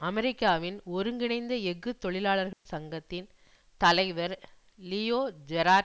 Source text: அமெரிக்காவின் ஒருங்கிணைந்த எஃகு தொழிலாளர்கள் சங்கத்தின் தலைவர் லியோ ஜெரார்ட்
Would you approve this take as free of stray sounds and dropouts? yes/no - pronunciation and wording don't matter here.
no